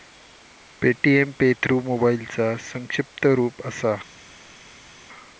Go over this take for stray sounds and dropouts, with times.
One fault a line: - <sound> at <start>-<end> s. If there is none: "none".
none